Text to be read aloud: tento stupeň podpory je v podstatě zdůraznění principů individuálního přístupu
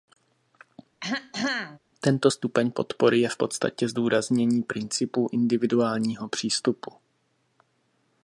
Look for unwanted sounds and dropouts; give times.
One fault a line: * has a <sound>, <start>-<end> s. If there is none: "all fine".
* has a throat clearing, 1.0-1.8 s